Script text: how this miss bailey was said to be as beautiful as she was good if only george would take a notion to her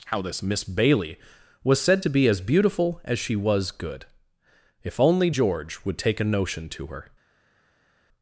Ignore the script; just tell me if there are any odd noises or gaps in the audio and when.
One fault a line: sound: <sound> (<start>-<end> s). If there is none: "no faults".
no faults